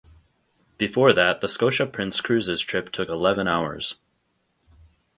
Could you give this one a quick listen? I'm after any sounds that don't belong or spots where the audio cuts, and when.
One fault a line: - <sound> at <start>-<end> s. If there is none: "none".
none